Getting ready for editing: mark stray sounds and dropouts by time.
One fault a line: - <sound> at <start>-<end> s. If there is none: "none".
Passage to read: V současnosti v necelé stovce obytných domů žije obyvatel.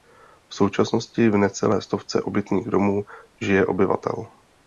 none